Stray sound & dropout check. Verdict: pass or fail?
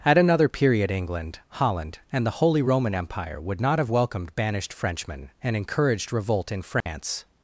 fail